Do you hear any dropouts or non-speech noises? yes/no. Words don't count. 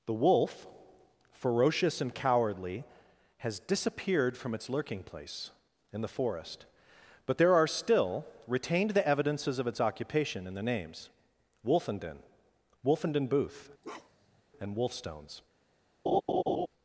yes